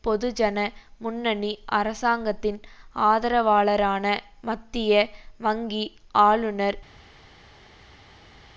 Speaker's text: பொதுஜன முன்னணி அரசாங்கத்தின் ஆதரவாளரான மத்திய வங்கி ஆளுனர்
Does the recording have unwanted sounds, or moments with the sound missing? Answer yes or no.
no